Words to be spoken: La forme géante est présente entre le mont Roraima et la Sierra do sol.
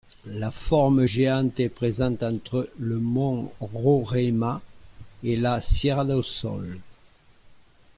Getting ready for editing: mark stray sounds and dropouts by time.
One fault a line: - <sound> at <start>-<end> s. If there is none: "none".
none